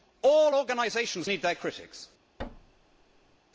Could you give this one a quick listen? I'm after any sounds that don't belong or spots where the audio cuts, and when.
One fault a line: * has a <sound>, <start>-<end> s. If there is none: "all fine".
* has a thud, 2.4-3.4 s